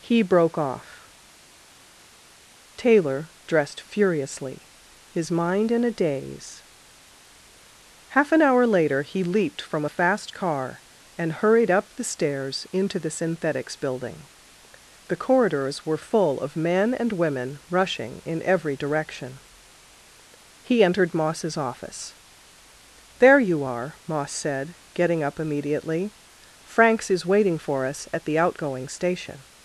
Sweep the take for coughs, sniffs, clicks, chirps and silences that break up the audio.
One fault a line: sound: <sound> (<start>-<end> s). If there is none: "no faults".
no faults